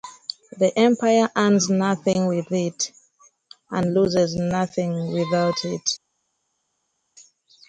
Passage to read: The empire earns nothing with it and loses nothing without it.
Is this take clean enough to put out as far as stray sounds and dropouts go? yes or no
yes